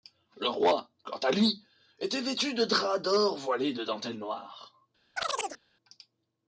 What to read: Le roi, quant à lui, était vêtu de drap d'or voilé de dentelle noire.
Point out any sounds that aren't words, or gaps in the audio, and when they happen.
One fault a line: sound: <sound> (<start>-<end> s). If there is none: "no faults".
sound: chirp (5.2-5.6 s)